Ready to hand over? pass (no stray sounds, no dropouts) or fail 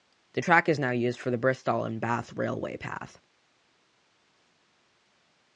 pass